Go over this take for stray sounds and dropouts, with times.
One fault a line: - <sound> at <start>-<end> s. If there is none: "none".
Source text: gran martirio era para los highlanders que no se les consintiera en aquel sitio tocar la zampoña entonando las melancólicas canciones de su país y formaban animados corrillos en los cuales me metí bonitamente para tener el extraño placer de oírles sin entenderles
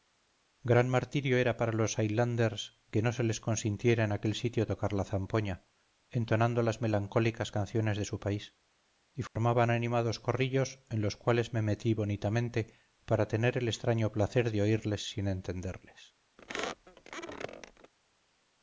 - dropout at 9.3-9.4 s
- squeak at 16.4-17.9 s